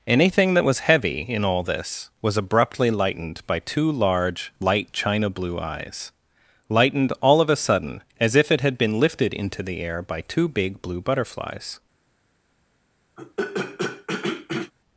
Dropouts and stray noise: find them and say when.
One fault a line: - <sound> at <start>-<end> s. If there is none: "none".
- throat clearing at 13.2-14.7 s